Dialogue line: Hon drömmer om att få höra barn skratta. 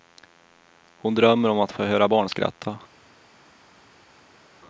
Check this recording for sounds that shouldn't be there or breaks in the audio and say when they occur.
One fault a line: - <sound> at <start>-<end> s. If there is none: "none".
none